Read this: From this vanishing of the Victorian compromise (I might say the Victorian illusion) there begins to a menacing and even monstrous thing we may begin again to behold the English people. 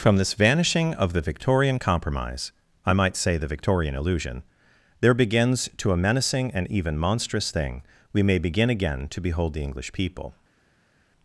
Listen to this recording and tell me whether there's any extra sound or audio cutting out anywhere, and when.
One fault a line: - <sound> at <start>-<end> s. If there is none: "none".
none